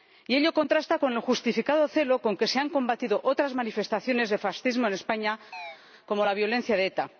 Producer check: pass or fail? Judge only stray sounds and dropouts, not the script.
fail